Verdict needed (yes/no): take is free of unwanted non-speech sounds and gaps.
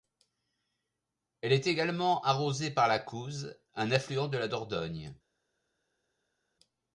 yes